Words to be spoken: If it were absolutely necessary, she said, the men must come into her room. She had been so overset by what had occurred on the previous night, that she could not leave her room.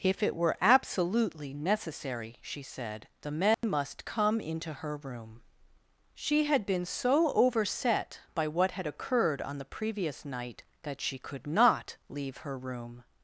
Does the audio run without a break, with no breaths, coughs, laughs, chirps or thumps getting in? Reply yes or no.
no